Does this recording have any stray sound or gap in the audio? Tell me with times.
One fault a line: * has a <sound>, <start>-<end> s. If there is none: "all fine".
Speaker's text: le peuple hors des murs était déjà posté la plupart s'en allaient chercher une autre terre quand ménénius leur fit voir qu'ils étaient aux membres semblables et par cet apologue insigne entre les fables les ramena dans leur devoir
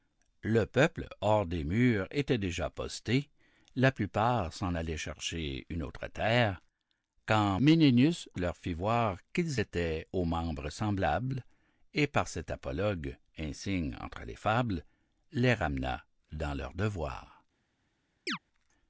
* has a chirp, 18.3-18.4 s